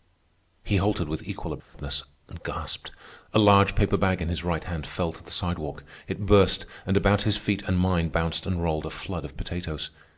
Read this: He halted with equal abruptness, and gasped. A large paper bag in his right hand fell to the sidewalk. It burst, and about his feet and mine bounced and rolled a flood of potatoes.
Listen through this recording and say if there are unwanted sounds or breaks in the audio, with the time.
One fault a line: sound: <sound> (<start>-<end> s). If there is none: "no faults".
sound: dropout (1.6-1.7 s)